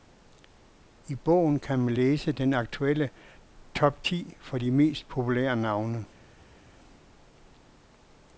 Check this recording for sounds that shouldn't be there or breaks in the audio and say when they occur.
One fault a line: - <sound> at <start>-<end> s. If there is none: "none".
none